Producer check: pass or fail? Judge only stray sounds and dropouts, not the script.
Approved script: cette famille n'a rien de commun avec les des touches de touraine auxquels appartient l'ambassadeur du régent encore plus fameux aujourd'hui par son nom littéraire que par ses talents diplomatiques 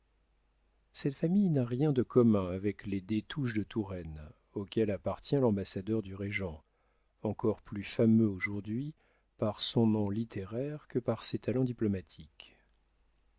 pass